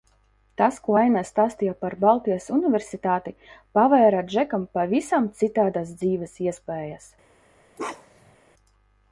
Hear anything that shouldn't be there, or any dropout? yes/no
yes